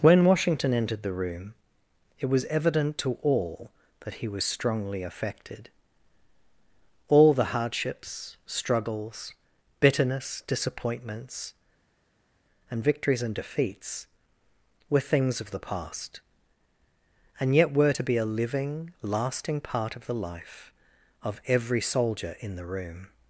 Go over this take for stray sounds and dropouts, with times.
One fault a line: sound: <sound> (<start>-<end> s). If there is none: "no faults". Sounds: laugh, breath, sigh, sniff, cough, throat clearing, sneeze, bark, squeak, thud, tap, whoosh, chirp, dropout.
no faults